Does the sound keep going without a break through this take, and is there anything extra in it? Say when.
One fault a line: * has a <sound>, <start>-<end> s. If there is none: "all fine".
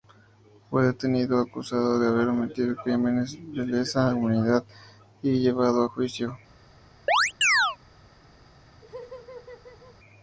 * has a chirp, 7.1-7.8 s
* has a laugh, 8.8-10.0 s